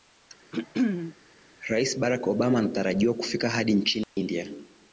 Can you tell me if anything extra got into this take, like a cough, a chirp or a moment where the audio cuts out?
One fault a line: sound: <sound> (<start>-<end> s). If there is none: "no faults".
sound: throat clearing (0.5-1.1 s)
sound: dropout (4.0-4.2 s)